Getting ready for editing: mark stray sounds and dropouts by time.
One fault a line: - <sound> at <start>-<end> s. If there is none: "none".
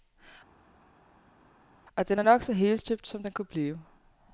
none